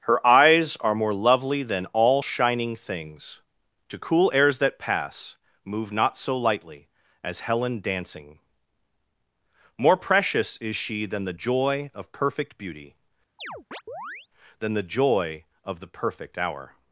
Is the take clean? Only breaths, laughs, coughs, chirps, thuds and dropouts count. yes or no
no